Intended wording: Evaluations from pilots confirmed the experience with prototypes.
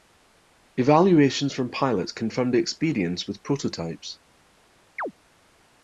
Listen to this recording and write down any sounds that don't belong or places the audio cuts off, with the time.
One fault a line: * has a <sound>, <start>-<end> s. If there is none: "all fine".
* has a chirp, 5.0-5.1 s